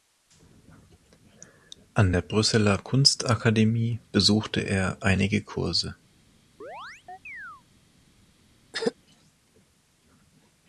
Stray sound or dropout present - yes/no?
yes